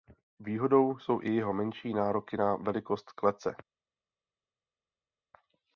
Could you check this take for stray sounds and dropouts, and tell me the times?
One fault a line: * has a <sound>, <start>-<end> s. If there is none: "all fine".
all fine